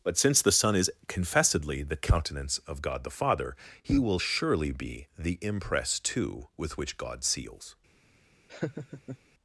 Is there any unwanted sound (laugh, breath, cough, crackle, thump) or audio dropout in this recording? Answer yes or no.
yes